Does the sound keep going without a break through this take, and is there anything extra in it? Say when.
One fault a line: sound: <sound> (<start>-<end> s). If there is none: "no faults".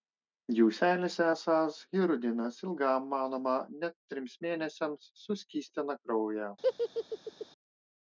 sound: laugh (6.6-7.5 s)